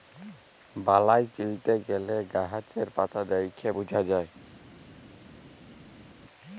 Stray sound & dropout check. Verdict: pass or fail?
pass